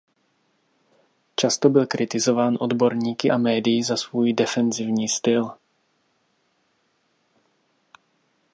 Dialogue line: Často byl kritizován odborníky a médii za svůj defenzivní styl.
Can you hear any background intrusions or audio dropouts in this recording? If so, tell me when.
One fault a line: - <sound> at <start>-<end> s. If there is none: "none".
none